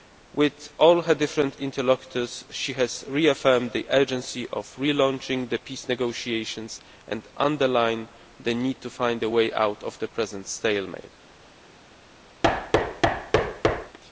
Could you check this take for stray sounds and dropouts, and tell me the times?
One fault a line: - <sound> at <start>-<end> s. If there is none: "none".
- thud at 12.4-14.0 s